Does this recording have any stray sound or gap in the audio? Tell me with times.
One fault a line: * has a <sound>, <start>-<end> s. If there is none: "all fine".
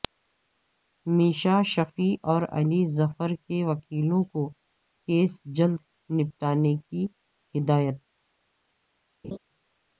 * has a laugh, 9.2-9.4 s